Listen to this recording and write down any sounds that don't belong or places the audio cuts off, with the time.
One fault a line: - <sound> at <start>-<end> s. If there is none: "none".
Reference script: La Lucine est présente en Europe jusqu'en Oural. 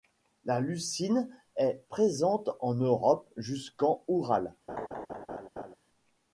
- laugh at 4.7-5.8 s